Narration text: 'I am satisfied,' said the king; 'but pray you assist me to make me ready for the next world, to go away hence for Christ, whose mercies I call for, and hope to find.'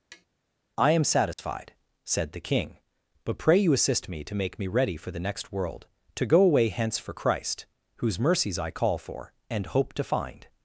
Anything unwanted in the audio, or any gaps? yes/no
yes